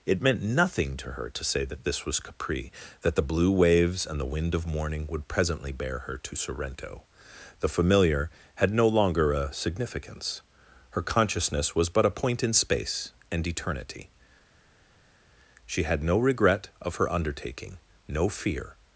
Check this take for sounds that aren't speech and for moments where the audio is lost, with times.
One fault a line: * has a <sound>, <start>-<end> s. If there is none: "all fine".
all fine